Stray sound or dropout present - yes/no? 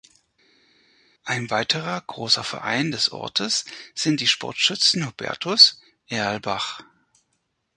no